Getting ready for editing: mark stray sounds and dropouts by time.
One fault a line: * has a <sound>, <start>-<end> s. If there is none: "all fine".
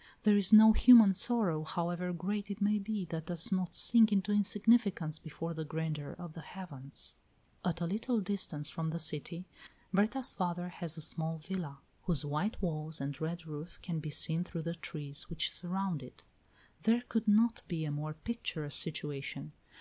all fine